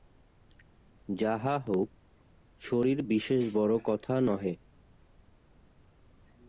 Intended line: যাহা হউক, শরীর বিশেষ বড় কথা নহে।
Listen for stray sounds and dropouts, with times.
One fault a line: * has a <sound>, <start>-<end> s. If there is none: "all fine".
all fine